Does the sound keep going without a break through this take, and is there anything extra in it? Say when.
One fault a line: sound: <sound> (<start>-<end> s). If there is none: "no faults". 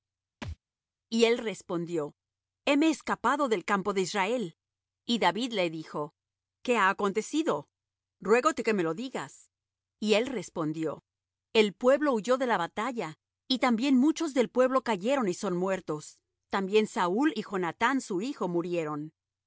sound: thud (0.4-0.6 s)